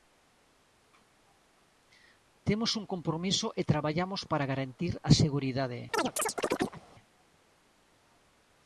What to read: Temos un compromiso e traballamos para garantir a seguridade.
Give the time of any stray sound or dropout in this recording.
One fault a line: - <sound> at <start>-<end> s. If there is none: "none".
- chirp at 5.9-6.8 s